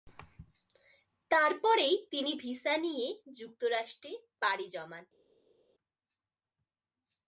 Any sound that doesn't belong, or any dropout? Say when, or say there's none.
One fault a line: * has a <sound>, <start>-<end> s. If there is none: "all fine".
all fine